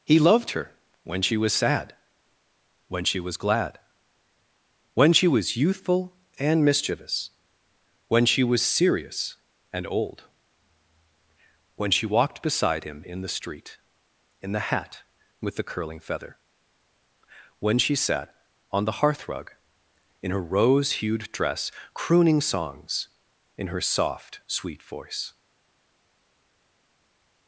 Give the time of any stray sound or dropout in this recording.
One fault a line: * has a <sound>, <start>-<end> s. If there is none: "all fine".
all fine